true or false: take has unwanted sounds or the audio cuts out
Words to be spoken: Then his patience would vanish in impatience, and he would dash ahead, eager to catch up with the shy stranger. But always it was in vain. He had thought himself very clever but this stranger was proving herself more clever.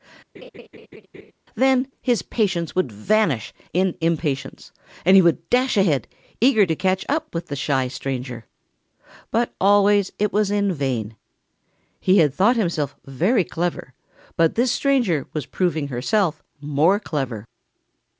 true